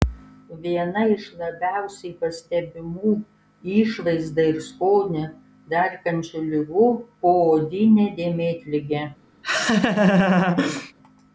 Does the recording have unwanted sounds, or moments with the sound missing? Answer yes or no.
yes